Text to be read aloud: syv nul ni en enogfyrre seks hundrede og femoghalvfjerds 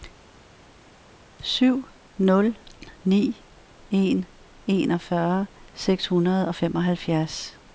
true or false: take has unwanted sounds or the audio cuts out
false